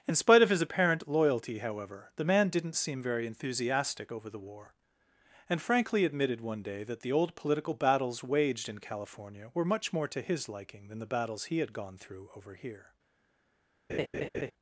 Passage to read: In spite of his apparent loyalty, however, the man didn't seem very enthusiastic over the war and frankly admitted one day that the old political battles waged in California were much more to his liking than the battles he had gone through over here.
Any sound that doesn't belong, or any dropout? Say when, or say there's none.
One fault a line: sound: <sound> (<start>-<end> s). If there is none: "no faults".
sound: laugh (13.9-14.5 s)